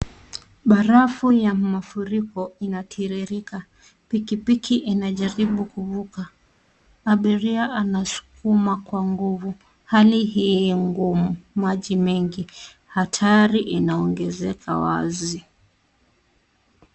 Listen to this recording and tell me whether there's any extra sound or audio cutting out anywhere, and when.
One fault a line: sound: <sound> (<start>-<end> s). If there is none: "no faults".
no faults